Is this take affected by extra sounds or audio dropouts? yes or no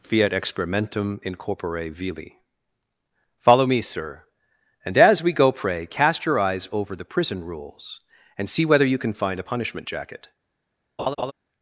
yes